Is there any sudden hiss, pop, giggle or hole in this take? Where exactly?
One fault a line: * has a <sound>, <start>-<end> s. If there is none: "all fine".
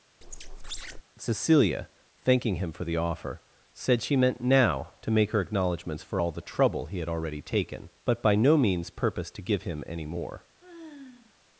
* has a squeak, 0.2-1.0 s
* has a sigh, 10.6-11.3 s